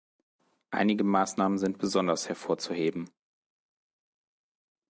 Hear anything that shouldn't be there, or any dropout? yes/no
no